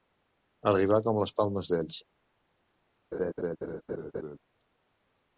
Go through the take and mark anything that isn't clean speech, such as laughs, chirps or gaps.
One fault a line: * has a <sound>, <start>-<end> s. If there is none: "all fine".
* has a laugh, 3.1-4.4 s